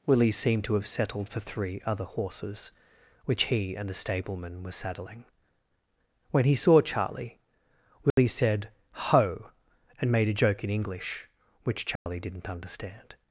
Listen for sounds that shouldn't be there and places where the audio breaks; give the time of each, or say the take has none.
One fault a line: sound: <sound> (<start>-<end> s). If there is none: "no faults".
sound: dropout (8.1-8.2 s)
sound: dropout (12.0-12.1 s)